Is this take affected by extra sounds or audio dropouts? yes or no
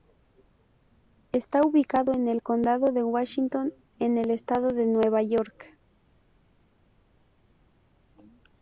no